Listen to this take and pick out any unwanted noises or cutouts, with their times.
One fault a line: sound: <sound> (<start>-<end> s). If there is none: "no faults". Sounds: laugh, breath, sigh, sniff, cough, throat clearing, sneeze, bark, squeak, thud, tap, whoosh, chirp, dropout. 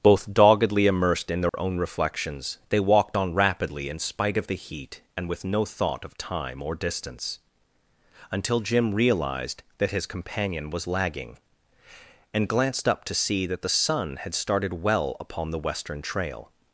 sound: dropout (1.5-1.5 s)